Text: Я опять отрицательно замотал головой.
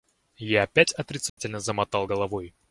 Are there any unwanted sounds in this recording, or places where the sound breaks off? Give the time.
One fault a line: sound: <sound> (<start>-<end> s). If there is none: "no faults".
sound: dropout (1.3-1.4 s)